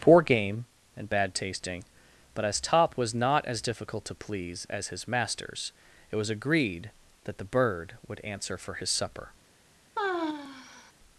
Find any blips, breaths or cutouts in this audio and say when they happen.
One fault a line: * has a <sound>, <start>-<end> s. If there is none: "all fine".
* has a sigh, 10.0-10.9 s